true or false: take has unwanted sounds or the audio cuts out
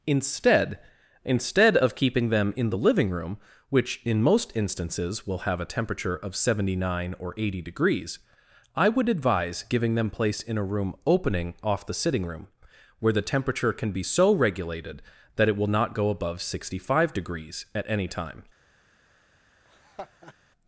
true